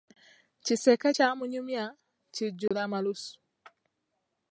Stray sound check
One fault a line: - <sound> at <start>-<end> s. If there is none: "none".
- dropout at 2.7-2.7 s